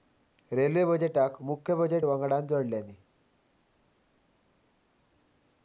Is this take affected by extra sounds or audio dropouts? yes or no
no